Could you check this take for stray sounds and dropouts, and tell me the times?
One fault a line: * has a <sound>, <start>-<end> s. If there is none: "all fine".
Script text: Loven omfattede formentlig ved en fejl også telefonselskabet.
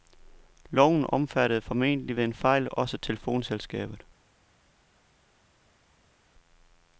all fine